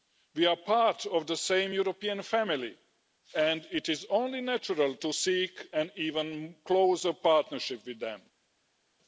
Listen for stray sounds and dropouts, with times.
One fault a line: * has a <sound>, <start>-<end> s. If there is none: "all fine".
all fine